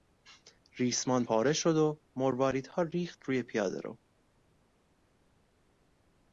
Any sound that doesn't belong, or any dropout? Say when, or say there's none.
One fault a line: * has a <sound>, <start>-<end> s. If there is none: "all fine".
all fine